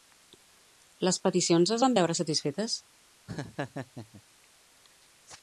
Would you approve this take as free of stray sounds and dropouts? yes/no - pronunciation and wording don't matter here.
no